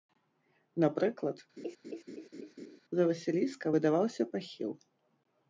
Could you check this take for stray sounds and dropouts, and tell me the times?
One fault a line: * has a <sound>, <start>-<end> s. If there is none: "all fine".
* has a laugh, 1.6-2.8 s